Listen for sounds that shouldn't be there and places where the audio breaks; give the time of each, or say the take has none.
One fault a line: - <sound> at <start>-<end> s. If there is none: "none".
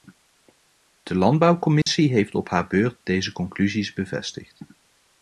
- dropout at 1.8-1.9 s